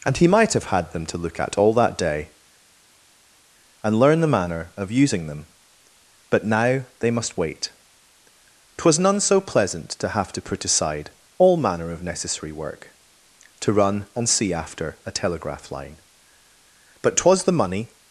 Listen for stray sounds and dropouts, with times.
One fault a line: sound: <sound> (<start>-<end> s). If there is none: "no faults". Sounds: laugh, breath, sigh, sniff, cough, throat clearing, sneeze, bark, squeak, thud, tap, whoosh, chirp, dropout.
no faults